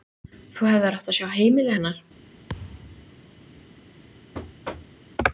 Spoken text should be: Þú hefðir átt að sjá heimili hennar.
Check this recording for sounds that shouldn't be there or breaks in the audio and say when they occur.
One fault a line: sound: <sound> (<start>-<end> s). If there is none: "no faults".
sound: thud (2.5-3.2 s)
sound: thud (4.3-5.0 s)